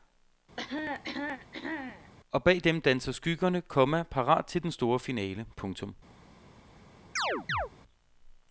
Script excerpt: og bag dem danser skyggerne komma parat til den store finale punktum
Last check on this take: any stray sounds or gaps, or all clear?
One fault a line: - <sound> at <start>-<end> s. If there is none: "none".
- cough at 0.6-2.1 s
- chirp at 7.2-7.7 s